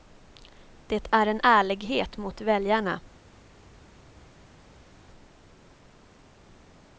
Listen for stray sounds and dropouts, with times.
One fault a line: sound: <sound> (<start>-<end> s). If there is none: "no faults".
no faults